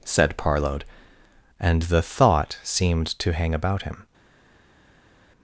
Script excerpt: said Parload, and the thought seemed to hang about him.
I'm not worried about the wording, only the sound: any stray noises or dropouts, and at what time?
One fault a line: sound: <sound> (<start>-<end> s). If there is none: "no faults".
no faults